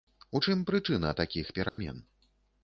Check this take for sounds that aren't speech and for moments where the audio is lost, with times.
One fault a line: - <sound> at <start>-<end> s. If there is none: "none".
- dropout at 1.7-1.8 s